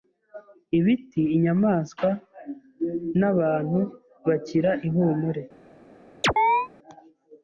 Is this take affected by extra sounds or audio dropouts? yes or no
yes